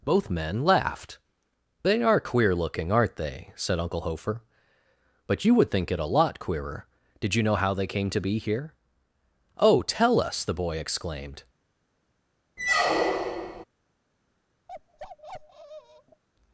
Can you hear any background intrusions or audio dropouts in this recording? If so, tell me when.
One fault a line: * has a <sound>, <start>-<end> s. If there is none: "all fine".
* has a squeak, 12.6-13.6 s
* has a bark, 14.7-16.2 s